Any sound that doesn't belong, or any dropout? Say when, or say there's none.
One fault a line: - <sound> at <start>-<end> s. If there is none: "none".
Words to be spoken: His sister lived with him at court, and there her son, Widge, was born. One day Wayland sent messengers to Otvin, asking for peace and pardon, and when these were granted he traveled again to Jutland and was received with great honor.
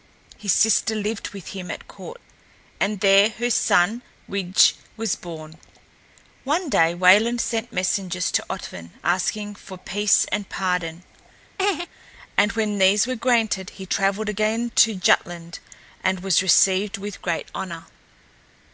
- laugh at 11.6-11.9 s